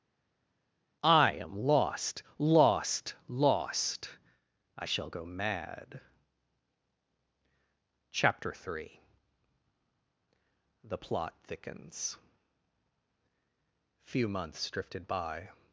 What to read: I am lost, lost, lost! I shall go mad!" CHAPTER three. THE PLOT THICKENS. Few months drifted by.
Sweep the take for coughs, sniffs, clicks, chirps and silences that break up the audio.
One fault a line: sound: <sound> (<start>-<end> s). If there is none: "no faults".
no faults